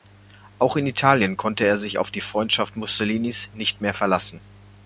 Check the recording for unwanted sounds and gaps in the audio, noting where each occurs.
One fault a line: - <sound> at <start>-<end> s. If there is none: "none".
none